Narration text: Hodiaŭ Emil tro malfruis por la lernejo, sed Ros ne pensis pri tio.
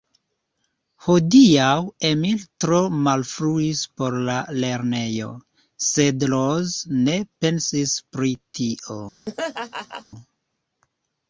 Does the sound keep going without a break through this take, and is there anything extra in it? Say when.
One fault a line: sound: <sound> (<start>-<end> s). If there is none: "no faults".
sound: laugh (9.3-10.1 s)